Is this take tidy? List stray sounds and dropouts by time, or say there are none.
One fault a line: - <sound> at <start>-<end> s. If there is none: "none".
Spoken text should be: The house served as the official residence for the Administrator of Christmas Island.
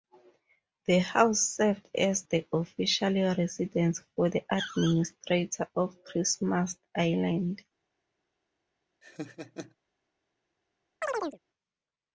- laugh at 9.0-9.8 s
- chirp at 11.0-11.4 s